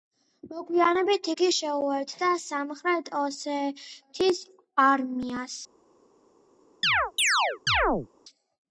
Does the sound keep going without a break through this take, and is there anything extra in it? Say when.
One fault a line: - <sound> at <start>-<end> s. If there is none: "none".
- chirp at 6.8-8.1 s